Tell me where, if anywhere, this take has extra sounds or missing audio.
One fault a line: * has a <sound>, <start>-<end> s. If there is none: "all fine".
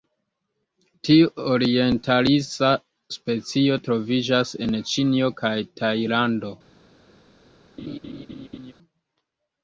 * has a laugh, 7.8-8.7 s